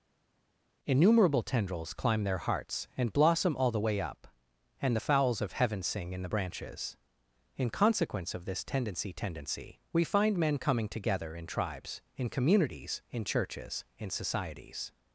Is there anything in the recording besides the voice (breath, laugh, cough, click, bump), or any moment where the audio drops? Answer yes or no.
no